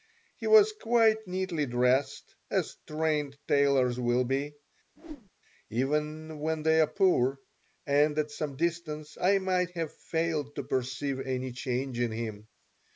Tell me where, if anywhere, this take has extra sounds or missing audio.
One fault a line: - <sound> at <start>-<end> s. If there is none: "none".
- whoosh at 5.0-5.3 s